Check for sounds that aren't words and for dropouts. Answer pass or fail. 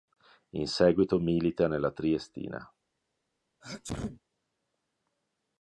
fail